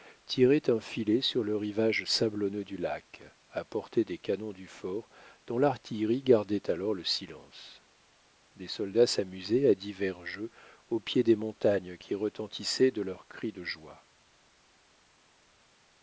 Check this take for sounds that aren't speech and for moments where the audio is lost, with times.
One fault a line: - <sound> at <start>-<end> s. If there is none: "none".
none